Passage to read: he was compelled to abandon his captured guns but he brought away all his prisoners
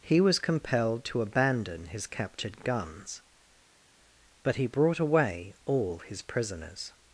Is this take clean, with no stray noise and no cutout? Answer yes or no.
yes